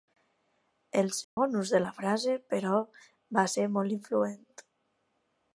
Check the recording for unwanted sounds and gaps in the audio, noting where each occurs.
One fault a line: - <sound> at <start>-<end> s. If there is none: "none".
- dropout at 1.2-1.4 s